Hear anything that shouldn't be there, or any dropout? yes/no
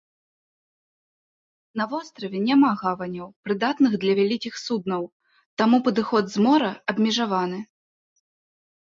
no